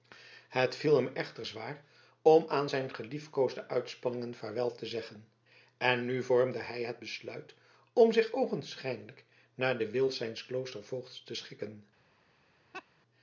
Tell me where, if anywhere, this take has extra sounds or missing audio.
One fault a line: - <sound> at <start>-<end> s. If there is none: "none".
- laugh at 12.7-12.9 s